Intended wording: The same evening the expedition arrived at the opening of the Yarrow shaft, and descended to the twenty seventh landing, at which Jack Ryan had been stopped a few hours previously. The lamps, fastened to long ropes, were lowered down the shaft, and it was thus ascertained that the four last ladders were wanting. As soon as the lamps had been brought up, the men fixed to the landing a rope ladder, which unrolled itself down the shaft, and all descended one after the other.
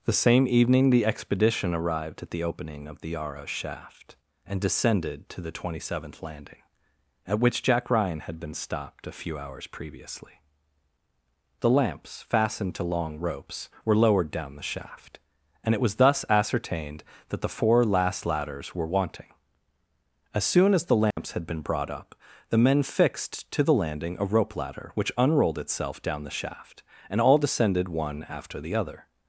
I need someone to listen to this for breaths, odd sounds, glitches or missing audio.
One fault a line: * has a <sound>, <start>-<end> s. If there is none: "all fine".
* has a dropout, 21.1-21.2 s